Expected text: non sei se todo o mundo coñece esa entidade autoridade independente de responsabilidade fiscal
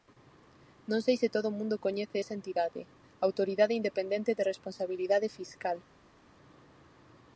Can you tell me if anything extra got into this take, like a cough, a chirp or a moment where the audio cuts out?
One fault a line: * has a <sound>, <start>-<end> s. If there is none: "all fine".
all fine